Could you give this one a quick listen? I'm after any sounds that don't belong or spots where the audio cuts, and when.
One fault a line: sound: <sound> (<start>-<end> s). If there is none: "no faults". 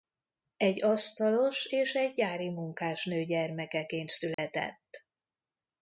sound: dropout (4.3-4.4 s)